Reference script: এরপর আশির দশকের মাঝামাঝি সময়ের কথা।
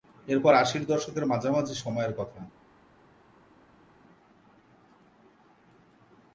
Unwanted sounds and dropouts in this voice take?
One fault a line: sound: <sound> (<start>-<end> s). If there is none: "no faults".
no faults